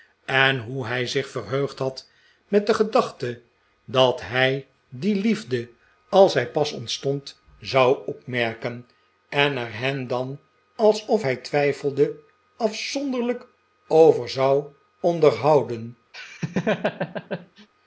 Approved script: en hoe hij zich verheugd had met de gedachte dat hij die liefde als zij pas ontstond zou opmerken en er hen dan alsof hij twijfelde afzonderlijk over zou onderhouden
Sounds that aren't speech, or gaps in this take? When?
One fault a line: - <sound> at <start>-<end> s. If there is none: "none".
- laugh at 16.1-17.7 s